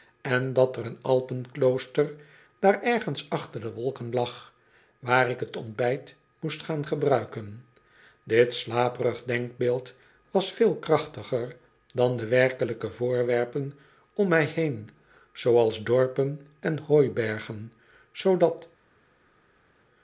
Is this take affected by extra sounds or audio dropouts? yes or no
no